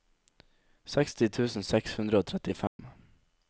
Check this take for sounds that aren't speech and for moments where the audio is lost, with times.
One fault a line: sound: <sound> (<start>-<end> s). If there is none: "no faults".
sound: dropout (2.7-2.8 s)